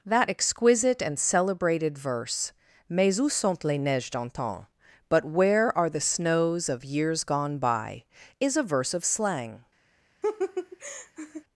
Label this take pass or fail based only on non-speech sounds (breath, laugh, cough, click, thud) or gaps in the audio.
fail